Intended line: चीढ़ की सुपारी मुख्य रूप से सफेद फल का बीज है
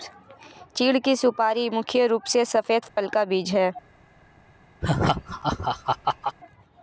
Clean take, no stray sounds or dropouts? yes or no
no